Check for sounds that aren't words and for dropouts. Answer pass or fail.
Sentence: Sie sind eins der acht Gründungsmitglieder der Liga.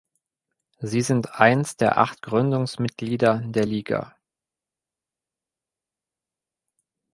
pass